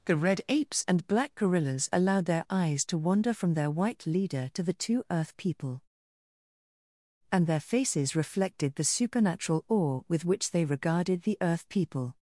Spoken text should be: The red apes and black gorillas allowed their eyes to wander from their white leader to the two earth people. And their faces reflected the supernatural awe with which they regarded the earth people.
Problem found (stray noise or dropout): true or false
false